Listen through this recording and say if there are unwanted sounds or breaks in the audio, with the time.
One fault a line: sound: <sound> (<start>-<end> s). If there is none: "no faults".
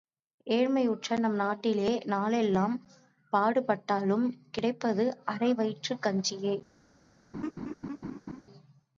sound: laugh (7.3-8.4 s)